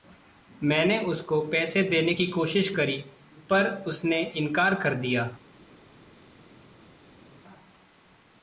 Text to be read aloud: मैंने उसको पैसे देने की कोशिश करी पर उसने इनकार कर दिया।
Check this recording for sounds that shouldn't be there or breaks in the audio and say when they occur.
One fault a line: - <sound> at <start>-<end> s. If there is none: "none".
none